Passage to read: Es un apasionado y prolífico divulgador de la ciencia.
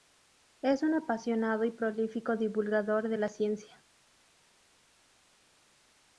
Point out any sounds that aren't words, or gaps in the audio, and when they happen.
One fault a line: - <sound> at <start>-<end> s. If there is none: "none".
none